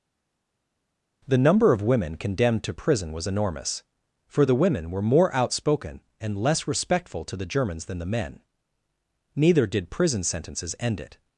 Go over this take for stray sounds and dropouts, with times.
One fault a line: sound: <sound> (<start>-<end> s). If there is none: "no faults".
no faults